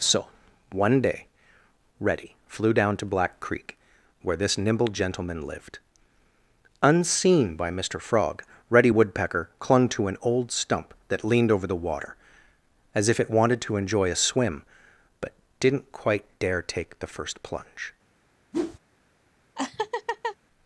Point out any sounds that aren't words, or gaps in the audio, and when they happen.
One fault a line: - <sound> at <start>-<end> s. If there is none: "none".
- whoosh at 18.5-18.8 s
- laugh at 19.6-20.4 s